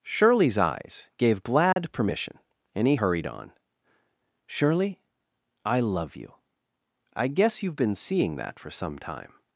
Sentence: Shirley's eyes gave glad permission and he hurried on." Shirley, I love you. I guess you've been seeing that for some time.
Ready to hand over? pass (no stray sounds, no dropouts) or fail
fail